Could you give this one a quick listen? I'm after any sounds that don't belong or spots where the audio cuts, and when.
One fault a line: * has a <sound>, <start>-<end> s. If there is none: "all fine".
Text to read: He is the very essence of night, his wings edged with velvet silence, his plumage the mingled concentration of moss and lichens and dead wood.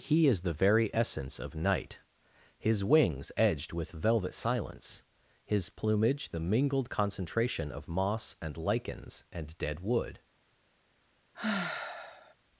* has a sigh, 11.3-12.3 s